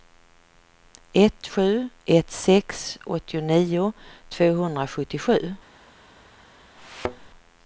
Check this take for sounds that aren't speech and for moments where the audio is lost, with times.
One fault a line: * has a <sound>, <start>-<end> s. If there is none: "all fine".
* has a thud, 6.8-7.3 s